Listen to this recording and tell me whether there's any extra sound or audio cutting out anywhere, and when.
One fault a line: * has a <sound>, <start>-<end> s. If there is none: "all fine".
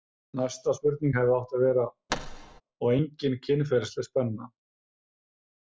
* has a thud, 2.1-2.6 s